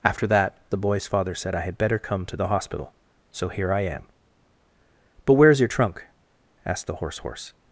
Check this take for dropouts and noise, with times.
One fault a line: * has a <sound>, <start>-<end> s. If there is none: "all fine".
all fine